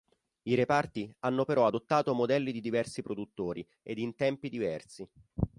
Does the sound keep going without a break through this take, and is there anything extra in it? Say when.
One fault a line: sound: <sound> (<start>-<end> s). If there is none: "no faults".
no faults